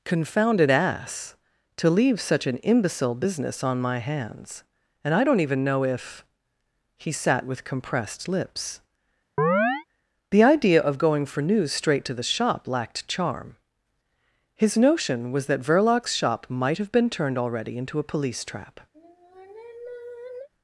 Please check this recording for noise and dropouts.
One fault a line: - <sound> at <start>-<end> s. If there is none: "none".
- chirp at 9.4-9.9 s
- sigh at 18.9-20.5 s